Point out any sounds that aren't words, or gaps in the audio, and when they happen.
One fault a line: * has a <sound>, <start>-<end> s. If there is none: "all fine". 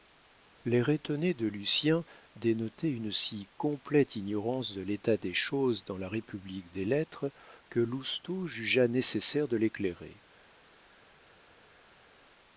all fine